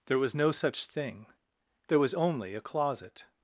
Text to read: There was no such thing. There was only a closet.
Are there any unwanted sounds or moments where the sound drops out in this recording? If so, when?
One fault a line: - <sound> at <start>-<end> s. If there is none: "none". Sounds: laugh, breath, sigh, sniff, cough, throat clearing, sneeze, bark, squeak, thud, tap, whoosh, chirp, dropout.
none